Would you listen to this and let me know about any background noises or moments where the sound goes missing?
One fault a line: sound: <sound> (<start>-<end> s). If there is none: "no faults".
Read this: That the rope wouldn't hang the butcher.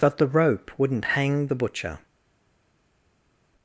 no faults